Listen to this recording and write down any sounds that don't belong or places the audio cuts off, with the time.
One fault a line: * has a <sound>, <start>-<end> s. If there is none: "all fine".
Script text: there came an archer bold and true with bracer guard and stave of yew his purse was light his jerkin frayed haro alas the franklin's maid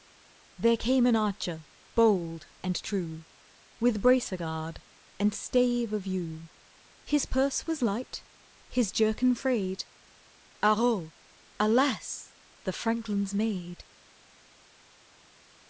all fine